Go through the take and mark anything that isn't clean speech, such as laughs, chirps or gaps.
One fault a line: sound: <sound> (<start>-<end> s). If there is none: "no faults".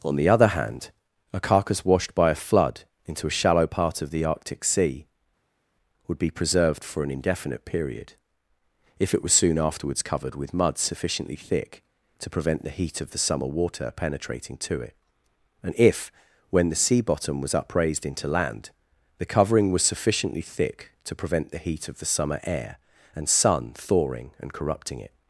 no faults